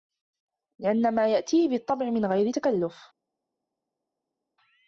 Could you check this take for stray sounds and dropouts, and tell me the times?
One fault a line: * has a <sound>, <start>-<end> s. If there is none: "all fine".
all fine